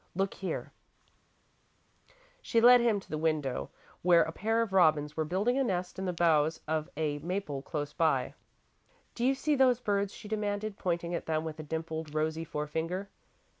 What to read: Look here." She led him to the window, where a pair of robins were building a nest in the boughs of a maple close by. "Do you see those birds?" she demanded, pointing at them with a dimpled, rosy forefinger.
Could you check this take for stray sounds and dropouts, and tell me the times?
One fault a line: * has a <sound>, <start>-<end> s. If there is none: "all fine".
all fine